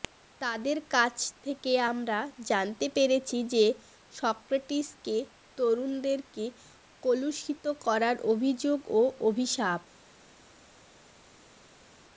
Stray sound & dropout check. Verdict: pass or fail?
pass